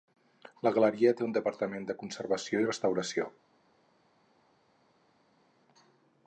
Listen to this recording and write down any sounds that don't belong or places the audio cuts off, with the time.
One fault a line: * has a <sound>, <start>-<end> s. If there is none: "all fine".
all fine